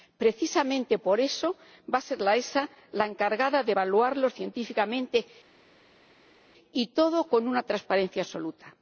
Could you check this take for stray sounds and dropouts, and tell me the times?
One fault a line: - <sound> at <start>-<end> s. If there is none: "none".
none